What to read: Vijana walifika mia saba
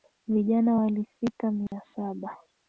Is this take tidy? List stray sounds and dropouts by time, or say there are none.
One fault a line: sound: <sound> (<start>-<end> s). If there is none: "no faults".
sound: dropout (1.7-1.7 s)